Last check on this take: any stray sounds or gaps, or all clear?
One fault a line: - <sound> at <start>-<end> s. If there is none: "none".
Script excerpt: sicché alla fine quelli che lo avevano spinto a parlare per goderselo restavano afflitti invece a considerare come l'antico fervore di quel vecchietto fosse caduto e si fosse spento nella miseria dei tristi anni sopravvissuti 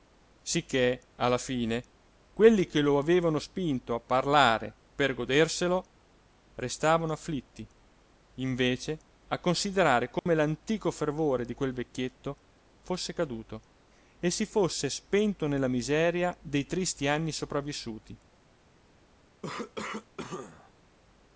- dropout at 10.2-10.3 s
- cough at 19.4-20.7 s